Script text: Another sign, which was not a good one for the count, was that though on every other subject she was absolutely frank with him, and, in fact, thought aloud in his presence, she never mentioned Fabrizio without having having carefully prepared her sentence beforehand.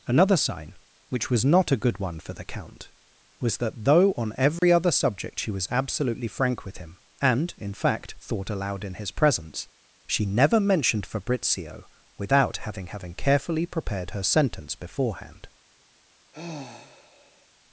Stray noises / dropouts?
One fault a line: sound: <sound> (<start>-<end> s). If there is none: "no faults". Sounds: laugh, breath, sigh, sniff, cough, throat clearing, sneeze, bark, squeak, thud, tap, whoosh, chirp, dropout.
sound: dropout (4.6-4.6 s)
sound: sigh (16.3-17.5 s)